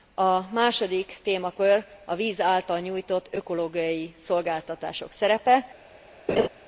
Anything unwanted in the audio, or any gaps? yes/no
yes